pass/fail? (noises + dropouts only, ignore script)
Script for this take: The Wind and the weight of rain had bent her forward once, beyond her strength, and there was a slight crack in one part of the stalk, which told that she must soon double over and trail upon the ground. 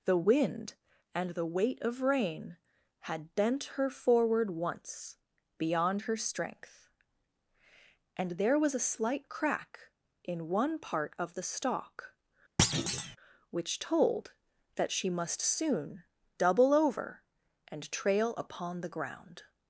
fail